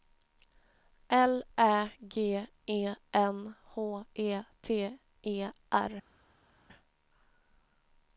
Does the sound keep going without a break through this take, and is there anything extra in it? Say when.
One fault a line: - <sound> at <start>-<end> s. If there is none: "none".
none